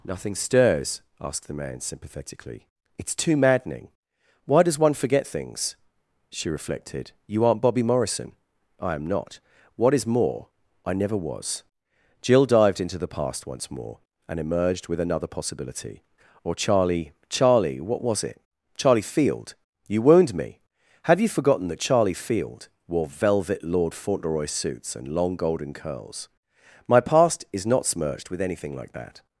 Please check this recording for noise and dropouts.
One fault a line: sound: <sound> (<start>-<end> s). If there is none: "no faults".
no faults